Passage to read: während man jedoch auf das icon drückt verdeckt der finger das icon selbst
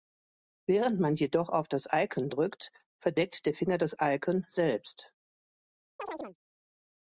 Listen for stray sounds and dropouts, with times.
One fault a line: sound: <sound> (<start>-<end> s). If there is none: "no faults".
sound: chirp (6.0-6.4 s)